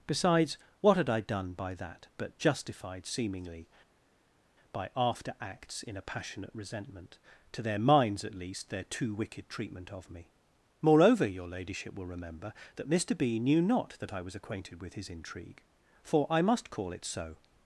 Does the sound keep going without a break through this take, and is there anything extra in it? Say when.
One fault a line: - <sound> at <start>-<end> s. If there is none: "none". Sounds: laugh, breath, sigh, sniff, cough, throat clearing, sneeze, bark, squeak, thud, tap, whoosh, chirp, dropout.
none